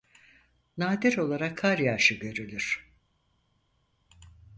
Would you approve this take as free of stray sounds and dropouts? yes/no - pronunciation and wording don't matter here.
yes